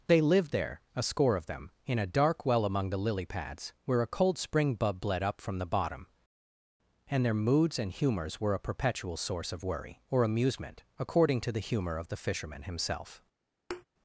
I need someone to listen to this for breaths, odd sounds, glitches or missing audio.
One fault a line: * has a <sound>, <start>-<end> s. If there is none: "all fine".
* has a thud, 13.7-13.8 s